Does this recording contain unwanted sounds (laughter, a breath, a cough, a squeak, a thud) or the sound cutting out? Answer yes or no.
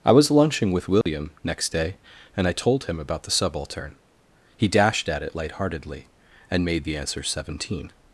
yes